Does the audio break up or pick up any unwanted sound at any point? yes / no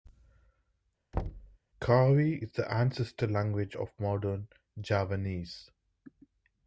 yes